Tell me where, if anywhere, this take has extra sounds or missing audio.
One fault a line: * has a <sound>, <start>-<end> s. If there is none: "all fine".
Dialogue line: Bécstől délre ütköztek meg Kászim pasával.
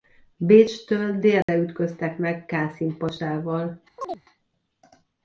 * has a dropout, 1.4-1.5 s
* has a chirp, 4.0-4.2 s